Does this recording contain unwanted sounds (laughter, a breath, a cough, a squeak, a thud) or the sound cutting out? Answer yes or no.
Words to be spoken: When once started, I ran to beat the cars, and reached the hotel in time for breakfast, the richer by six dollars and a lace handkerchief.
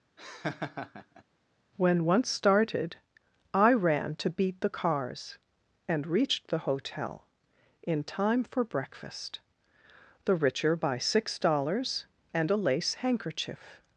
yes